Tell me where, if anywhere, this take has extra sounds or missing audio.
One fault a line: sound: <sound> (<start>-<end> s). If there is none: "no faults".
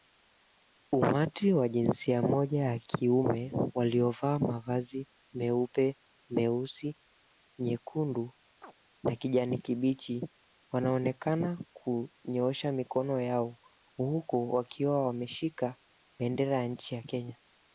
sound: chirp (8.6-8.7 s)